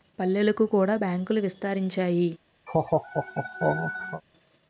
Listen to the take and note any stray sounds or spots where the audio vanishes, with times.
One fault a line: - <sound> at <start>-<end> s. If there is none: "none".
- laugh at 2.7-4.2 s